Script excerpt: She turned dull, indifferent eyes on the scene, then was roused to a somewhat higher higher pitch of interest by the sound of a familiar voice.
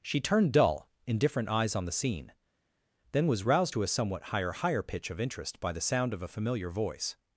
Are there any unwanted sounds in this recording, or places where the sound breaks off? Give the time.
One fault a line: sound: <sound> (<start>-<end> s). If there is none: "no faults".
no faults